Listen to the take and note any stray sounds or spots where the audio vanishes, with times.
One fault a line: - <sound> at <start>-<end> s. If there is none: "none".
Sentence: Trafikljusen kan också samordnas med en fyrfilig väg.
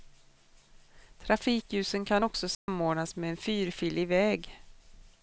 - dropout at 2.5-2.7 s